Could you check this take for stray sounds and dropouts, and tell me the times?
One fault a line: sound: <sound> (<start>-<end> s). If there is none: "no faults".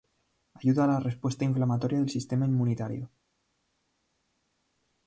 no faults